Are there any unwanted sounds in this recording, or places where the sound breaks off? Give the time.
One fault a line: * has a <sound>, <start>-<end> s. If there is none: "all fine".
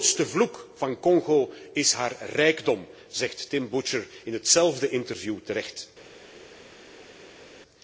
all fine